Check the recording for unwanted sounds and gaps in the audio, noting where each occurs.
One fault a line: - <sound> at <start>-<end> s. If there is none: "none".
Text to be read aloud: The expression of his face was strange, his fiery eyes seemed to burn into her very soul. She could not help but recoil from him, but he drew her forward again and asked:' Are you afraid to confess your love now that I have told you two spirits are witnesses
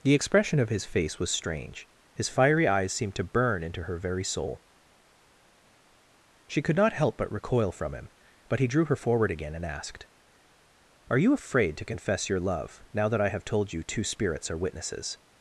none